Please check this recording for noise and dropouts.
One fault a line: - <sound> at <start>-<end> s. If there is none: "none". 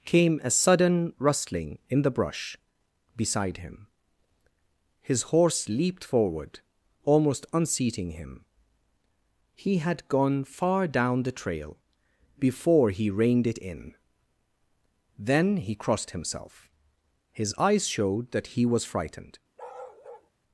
- bark at 19.6-20.3 s